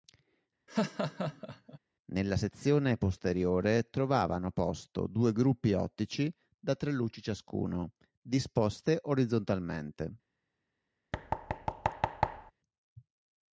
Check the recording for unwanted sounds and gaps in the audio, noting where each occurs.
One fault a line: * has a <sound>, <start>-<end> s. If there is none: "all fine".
* has a laugh, 0.7-1.8 s
* has a thud, 11.1-12.5 s